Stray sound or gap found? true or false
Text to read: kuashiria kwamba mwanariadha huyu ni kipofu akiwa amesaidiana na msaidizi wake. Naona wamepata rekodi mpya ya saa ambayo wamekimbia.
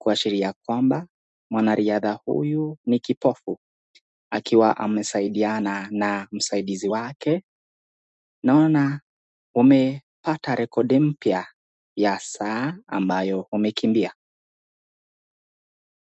false